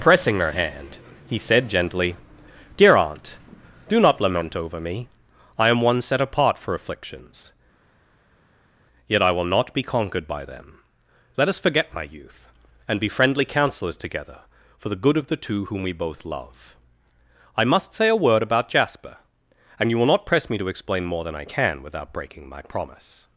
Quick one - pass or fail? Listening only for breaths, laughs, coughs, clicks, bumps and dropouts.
pass